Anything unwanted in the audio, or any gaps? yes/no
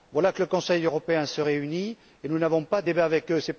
no